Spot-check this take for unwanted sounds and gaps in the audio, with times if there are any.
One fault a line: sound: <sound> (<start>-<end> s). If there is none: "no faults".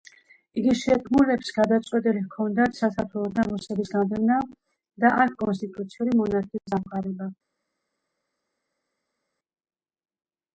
no faults